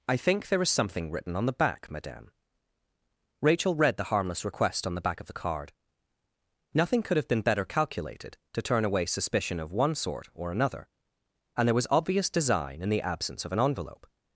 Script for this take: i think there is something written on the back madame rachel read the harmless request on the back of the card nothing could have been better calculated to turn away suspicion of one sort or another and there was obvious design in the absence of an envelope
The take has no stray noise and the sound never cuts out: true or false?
true